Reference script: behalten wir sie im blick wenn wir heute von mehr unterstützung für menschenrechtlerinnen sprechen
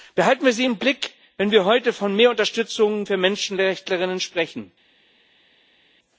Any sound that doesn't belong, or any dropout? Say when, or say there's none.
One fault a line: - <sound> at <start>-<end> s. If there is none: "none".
none